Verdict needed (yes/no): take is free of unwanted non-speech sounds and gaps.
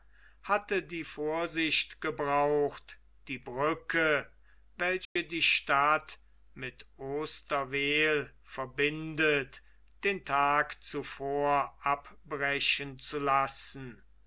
no